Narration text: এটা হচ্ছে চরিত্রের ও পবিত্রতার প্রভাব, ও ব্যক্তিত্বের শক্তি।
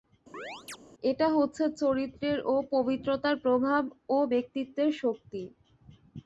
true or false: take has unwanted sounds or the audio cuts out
true